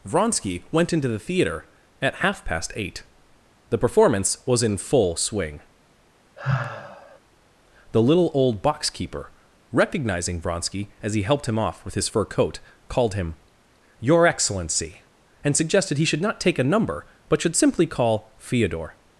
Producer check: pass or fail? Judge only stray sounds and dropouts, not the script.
fail